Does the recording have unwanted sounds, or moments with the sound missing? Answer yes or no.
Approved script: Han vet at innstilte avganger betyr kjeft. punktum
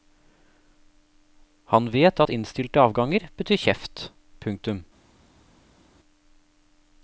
no